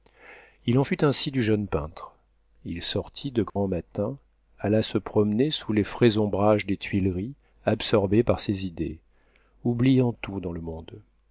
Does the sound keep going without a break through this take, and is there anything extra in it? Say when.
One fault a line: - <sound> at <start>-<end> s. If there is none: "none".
- dropout at 3.5-3.6 s